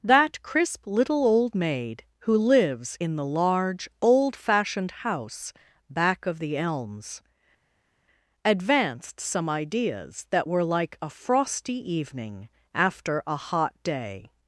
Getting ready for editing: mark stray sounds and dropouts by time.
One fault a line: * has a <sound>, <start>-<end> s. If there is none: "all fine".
all fine